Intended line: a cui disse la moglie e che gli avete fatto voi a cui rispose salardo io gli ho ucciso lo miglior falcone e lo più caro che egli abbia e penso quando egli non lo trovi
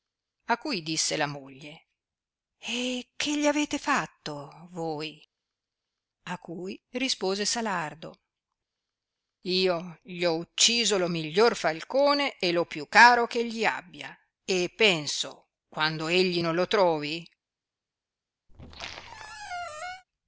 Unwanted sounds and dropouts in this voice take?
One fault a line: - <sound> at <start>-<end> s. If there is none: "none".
- squeak at 18.5-20.0 s